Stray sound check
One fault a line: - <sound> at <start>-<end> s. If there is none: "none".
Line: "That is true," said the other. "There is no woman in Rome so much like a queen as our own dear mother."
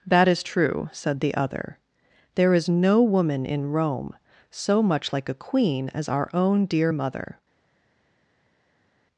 none